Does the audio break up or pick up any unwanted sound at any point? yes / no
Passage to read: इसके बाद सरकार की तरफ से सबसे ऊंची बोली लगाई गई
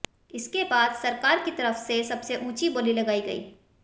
no